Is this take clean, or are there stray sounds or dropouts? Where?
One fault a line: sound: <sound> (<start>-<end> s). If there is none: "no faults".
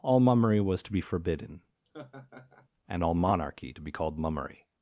sound: laugh (1.8-2.7 s)